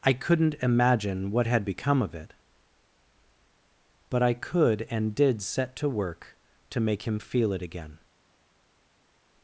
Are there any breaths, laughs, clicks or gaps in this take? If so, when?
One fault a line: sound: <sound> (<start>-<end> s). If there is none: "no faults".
no faults